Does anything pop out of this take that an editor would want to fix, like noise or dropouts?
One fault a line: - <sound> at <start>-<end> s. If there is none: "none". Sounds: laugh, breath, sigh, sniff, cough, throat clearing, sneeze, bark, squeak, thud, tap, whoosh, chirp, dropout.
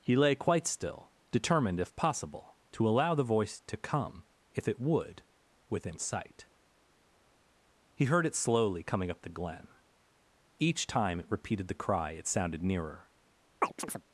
- chirp at 13.6-14.0 s